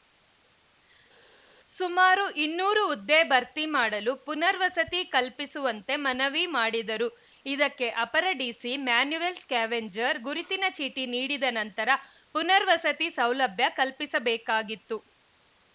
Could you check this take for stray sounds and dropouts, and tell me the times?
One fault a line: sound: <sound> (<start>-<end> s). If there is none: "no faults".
no faults